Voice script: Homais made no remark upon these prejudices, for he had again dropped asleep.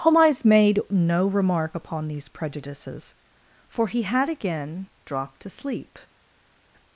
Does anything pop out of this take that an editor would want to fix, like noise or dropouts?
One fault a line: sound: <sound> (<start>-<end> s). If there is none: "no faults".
no faults